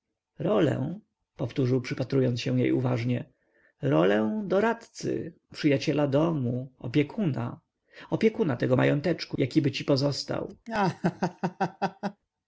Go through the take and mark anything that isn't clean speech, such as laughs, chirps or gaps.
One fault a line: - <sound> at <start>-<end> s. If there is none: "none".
- laugh at 10.7-12.2 s